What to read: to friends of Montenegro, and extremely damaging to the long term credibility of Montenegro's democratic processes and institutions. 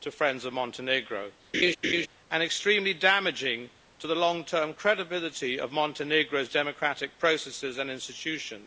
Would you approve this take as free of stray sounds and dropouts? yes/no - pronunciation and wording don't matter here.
no